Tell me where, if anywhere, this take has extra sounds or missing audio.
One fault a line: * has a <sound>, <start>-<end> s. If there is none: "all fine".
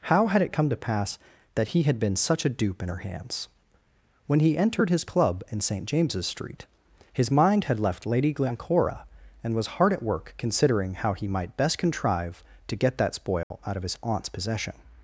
* has a dropout, 13.4-13.5 s